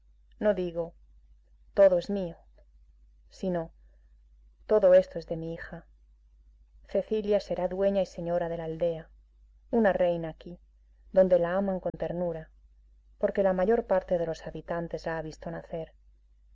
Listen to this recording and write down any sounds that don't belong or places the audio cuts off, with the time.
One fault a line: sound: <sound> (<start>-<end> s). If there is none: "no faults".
sound: dropout (11.9-11.9 s)